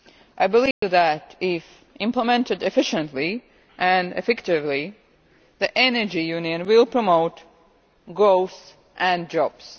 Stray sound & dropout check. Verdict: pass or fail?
fail